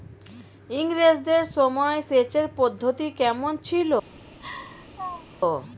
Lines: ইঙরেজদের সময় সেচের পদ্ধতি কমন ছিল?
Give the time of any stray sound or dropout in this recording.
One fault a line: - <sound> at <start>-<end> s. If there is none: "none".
- laugh at 4.4-5.4 s